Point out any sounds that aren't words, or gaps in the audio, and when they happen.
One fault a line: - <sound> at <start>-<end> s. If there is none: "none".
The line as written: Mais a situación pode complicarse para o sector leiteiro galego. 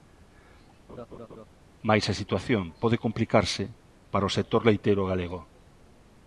- laugh at 0.9-1.5 s